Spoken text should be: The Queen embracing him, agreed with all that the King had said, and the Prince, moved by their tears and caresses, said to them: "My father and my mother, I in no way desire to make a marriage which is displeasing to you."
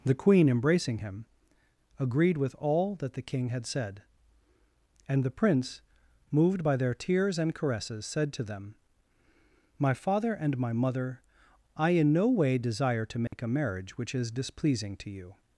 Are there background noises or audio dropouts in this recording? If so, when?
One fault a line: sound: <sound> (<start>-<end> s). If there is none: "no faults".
sound: dropout (13.3-13.3 s)